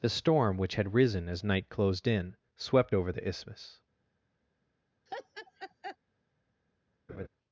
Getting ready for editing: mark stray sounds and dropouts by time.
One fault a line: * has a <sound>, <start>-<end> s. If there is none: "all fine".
* has a laugh, 5.1-6.0 s
* has a laugh, 7.1-7.3 s